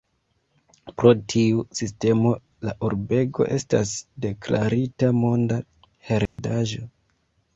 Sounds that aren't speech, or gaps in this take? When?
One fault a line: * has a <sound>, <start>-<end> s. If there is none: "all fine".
* has a dropout, 6.3-6.4 s